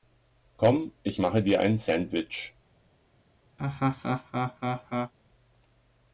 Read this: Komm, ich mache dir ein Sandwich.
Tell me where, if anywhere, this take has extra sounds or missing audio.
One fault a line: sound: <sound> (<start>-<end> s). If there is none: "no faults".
sound: laugh (3.6-5.1 s)